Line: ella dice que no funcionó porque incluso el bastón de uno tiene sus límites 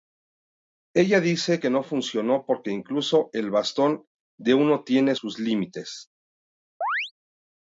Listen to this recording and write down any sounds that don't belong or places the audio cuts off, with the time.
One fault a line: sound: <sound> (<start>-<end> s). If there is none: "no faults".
sound: chirp (6.8-7.1 s)